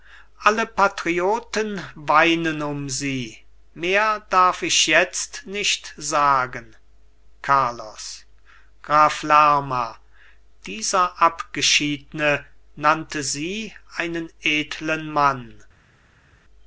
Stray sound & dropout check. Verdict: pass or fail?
pass